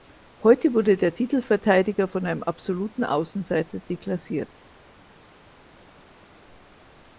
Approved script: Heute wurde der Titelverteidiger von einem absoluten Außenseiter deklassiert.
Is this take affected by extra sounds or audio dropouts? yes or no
no